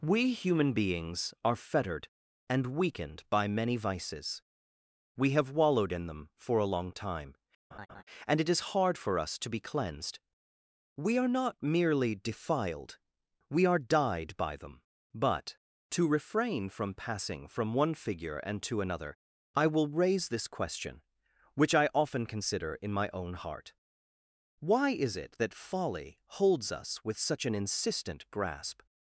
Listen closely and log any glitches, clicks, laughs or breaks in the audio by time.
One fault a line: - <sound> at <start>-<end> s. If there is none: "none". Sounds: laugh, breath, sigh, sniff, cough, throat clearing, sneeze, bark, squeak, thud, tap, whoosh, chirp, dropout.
- laugh at 7.7-8.0 s